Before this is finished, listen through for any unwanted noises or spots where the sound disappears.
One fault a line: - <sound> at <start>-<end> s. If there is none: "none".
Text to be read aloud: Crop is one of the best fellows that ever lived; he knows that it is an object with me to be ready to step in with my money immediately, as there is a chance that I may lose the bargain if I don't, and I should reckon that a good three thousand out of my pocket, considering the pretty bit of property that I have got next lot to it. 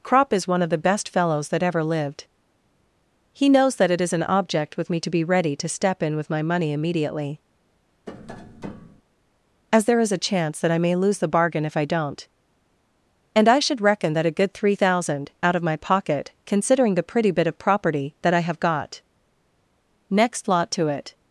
- tap at 8.1-9.0 s